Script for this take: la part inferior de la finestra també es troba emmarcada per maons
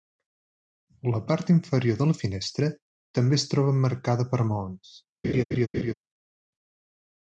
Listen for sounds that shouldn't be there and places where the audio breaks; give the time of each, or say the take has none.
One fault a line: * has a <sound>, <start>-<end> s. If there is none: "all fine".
* has a laugh, 5.2-5.9 s